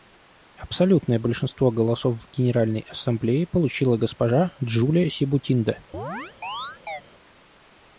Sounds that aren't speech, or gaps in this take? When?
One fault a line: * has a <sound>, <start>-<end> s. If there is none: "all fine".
* has a chirp, 5.9-7.0 s